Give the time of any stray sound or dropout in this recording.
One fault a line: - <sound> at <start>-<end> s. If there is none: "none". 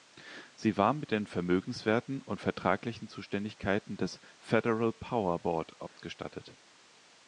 - dropout at 5.9-6.0 s